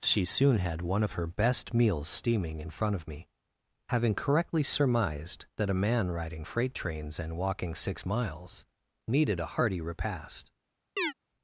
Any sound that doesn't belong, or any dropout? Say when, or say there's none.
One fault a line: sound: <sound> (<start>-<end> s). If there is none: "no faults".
sound: chirp (11.0-11.1 s)